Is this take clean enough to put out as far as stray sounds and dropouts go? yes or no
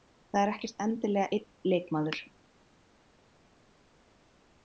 yes